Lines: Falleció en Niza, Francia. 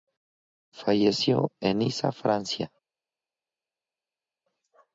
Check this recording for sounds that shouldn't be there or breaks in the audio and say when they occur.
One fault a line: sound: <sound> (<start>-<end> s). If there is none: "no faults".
no faults